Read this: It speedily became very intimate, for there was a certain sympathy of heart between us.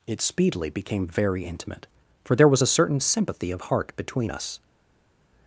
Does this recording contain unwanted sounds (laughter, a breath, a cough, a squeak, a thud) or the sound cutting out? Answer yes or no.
no